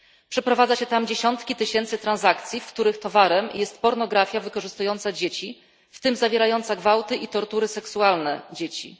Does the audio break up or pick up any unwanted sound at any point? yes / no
no